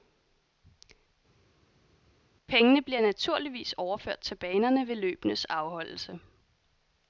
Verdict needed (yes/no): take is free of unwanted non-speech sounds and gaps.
yes